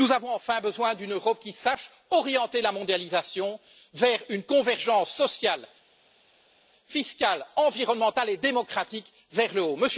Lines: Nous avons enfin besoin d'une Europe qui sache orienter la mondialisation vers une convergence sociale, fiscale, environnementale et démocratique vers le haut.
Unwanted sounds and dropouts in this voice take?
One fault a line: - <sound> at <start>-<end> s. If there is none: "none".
none